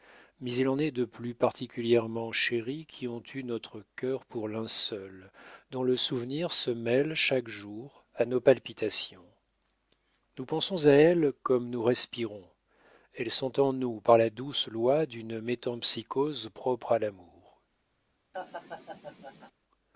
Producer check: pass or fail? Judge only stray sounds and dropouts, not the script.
fail